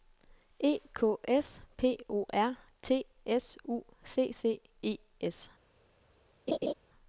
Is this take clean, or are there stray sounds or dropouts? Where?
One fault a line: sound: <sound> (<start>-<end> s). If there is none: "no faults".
sound: laugh (6.5-6.7 s)